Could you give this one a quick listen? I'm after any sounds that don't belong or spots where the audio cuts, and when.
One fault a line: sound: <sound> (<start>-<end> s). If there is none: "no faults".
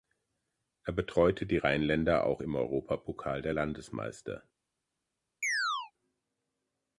sound: chirp (5.4-5.9 s)